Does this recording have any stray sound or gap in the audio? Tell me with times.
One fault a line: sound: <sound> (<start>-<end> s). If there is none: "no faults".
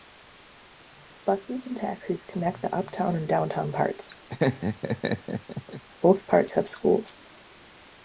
sound: laugh (4.3-5.8 s)